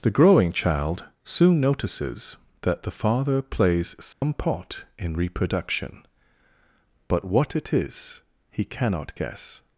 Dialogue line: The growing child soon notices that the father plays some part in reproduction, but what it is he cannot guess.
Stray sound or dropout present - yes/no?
yes